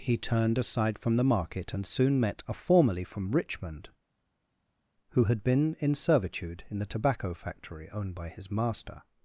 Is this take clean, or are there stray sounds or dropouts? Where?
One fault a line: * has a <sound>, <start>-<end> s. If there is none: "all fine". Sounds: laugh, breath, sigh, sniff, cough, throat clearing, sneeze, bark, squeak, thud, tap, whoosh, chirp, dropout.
all fine